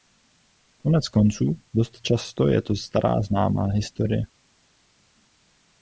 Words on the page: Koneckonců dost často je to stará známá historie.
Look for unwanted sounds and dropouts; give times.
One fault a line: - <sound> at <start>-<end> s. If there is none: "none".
none